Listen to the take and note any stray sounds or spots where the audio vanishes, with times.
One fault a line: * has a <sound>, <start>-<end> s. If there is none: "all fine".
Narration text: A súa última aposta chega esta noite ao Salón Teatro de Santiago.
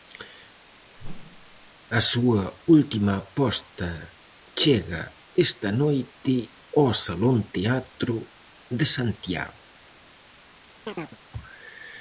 * has a whoosh, 1.0-1.7 s
* has a chirp, 10.9-11.2 s